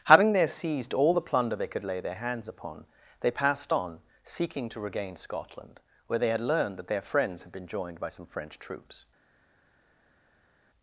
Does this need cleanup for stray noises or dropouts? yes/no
no